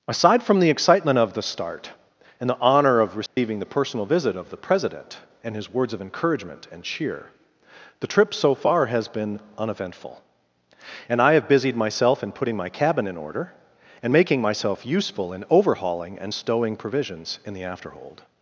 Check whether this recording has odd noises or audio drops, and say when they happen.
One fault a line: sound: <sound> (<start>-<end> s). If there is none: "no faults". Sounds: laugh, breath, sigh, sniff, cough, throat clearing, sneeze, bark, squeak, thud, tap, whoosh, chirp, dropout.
sound: dropout (3.3-3.4 s)